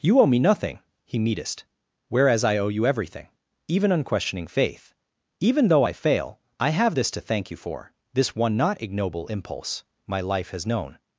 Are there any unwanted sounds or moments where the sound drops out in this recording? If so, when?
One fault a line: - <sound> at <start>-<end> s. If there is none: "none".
none